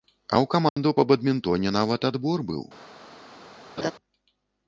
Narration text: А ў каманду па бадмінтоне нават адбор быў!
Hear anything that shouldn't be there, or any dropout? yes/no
yes